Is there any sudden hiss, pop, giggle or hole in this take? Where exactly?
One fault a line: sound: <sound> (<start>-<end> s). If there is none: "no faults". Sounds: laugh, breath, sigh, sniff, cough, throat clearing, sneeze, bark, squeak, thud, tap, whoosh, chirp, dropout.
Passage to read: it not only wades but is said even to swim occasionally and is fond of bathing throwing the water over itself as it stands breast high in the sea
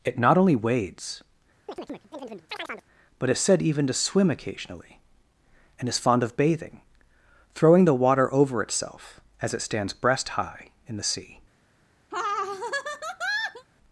sound: chirp (1.7-2.9 s)
sound: laugh (12.1-13.7 s)